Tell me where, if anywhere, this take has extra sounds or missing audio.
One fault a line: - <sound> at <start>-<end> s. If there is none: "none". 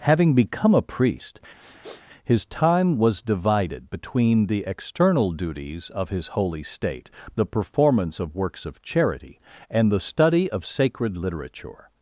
- sniff at 1.6-2.0 s